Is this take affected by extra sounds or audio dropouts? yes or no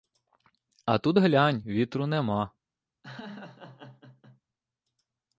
yes